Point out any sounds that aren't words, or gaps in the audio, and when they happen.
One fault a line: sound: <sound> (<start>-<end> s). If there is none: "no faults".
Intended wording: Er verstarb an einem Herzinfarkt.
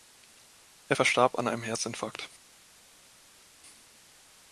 no faults